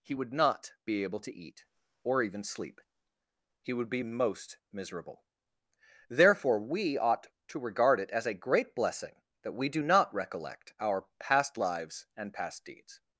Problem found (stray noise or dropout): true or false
false